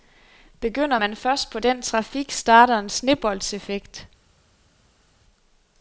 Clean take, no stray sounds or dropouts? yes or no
yes